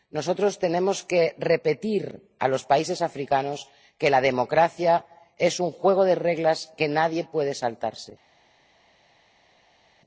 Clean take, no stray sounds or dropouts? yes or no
yes